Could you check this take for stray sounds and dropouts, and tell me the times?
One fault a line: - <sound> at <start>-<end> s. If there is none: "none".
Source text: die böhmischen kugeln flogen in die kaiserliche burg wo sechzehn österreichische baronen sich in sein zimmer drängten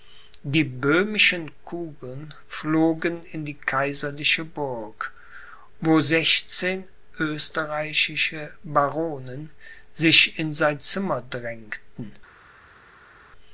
none